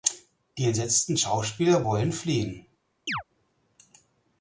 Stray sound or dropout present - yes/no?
yes